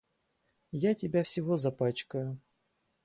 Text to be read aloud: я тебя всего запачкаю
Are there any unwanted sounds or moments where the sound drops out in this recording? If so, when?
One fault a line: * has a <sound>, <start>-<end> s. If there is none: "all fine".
all fine